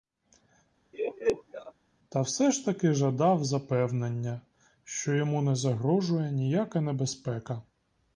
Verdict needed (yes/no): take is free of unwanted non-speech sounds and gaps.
no